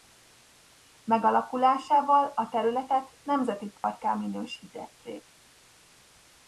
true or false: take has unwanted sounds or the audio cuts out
true